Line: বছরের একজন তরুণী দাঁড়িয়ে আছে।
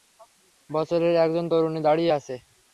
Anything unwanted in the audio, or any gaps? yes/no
no